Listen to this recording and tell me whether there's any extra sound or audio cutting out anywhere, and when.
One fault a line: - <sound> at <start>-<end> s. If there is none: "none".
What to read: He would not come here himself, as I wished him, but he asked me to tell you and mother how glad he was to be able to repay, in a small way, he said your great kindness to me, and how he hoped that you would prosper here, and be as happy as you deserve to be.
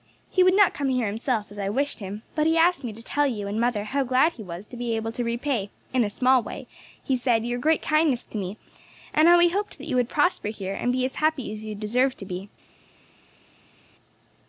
none